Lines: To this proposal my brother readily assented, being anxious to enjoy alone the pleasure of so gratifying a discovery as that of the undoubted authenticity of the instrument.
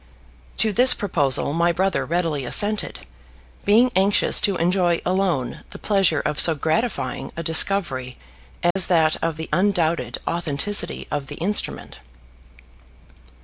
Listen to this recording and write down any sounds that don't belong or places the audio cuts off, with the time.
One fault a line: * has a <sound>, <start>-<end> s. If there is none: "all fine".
* has a dropout, 8.7-8.8 s